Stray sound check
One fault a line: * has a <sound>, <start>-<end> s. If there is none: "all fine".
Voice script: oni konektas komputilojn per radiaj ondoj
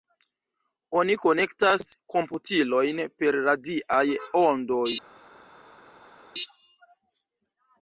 all fine